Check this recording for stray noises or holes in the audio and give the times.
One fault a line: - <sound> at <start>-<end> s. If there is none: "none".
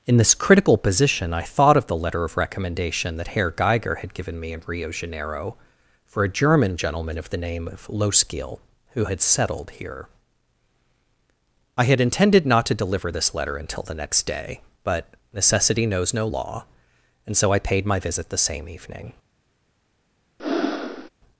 - breath at 20.4-21.1 s